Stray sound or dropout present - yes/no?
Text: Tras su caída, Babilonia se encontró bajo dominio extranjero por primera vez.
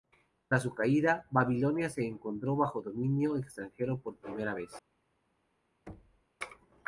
yes